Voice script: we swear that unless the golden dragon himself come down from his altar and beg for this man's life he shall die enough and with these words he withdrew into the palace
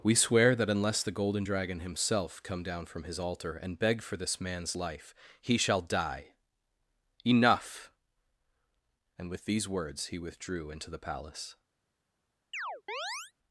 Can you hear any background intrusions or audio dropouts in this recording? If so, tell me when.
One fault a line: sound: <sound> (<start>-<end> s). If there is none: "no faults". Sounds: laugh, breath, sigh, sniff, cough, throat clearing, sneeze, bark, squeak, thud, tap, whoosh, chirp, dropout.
sound: chirp (12.5-13.3 s)